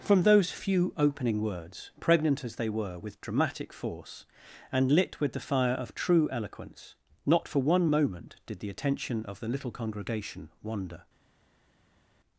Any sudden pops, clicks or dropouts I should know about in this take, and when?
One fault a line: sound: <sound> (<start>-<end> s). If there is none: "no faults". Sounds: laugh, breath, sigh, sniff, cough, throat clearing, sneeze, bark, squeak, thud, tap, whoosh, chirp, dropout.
no faults